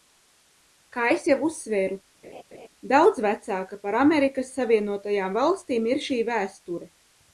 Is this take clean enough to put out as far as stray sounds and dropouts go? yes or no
no